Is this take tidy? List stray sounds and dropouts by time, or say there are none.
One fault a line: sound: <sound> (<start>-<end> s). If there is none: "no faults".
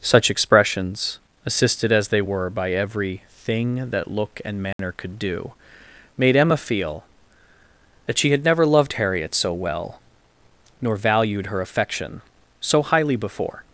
sound: dropout (4.7-4.8 s)